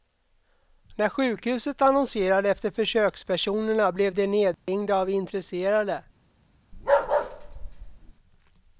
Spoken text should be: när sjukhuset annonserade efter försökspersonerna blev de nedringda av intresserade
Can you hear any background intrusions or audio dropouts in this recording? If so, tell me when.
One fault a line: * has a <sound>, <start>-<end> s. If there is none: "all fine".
* has a dropout, 4.5-4.7 s
* has a bark, 6.7-8.1 s